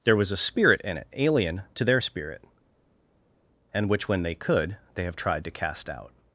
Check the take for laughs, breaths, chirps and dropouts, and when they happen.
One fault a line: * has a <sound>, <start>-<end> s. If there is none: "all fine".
all fine